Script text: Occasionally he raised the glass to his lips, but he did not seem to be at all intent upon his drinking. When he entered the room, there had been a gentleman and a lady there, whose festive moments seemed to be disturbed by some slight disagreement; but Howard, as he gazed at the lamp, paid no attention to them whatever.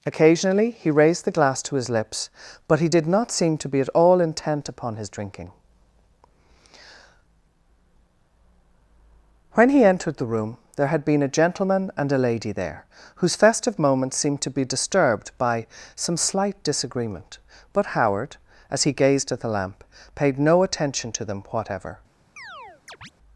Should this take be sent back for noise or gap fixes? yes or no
yes